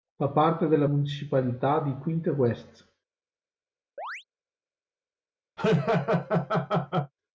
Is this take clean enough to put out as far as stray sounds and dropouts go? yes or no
no